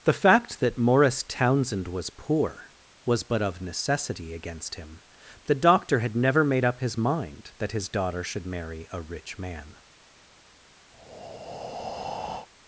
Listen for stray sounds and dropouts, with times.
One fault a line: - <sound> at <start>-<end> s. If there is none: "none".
- breath at 10.9-12.5 s